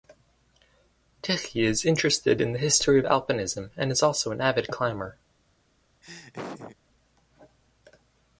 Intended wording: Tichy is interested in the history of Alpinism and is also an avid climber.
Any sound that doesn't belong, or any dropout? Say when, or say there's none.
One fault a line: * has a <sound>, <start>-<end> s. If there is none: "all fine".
* has a laugh, 6.0-6.8 s